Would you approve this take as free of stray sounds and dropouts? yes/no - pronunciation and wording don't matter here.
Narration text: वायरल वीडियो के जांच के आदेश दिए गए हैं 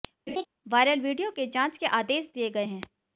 no